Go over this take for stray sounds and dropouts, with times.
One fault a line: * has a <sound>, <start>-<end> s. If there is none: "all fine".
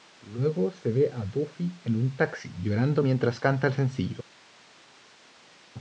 all fine